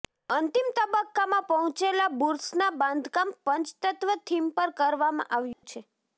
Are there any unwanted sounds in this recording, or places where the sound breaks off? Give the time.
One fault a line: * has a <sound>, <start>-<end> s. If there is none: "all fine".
* has a dropout, 5.5-5.6 s